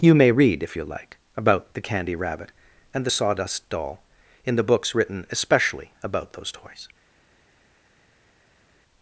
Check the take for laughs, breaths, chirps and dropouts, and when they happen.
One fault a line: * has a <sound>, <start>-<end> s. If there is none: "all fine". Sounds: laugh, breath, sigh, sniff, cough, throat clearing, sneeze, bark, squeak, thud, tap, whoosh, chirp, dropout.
all fine